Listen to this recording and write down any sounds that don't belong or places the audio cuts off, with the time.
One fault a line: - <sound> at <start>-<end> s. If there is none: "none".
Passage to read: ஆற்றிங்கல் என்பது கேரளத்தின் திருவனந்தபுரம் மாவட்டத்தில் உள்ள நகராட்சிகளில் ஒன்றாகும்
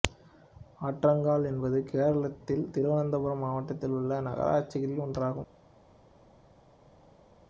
none